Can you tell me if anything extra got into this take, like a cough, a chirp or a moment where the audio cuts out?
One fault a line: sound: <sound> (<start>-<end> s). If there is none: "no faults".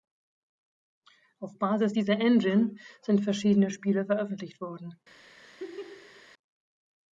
sound: laugh (5.4-6.3 s)